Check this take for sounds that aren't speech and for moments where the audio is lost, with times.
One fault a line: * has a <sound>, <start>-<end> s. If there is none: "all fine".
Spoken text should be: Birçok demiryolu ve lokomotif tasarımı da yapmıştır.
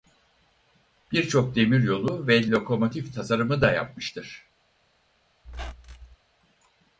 * has a squeak, 5.4-6.2 s